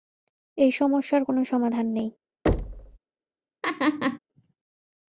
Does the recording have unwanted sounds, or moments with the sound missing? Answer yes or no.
yes